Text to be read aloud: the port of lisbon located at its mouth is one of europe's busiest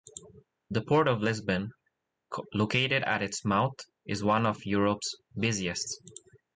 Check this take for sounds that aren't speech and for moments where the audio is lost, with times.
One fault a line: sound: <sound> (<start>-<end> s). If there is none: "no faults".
no faults